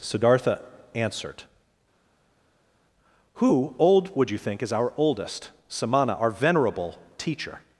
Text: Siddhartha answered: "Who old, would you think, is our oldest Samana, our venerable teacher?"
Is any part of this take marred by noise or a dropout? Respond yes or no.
no